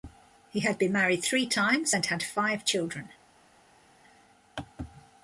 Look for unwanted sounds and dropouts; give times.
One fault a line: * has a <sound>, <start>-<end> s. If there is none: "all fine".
all fine